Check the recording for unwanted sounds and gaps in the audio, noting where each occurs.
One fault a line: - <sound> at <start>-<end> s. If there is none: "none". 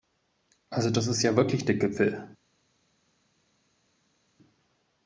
none